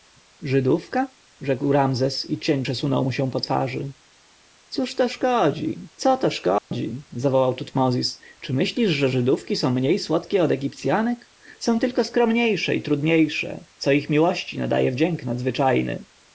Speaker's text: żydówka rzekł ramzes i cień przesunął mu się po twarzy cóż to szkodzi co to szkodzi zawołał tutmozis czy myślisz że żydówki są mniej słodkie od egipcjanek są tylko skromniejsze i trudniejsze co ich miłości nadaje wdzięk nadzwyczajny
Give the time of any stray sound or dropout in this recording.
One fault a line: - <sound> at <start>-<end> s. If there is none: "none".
- dropout at 6.6-6.7 s